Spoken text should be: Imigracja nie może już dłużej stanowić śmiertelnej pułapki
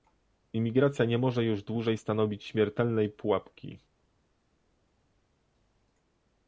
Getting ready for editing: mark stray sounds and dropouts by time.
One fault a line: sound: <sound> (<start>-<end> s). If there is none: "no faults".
no faults